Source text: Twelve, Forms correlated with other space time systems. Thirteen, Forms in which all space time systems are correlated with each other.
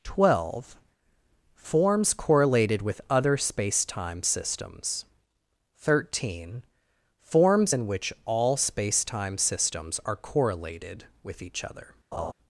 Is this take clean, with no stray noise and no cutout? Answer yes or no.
no